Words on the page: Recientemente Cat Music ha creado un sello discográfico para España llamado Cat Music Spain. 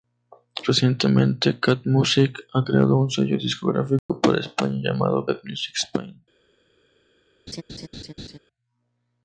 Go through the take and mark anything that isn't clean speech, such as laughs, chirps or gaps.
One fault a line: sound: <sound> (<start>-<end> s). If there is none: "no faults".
sound: dropout (4.0-4.1 s)
sound: laugh (7.5-8.4 s)